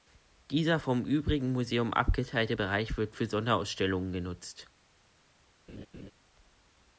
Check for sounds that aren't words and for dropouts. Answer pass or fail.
fail